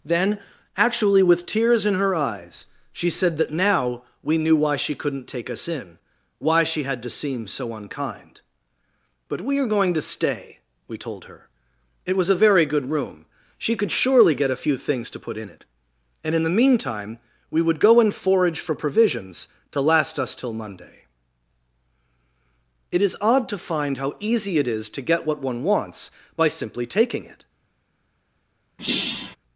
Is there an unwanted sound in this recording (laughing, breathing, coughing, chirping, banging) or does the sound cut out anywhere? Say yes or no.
yes